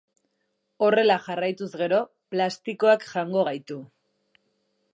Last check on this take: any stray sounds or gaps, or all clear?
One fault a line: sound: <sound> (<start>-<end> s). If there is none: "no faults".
no faults